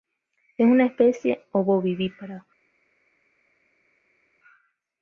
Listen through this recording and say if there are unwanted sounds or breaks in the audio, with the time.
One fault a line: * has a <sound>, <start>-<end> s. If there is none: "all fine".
all fine